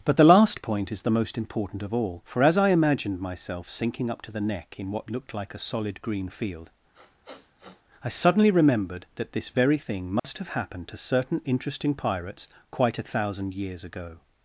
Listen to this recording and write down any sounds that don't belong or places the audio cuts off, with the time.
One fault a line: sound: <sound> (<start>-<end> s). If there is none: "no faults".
sound: sniff (6.9-7.8 s)
sound: dropout (10.2-10.2 s)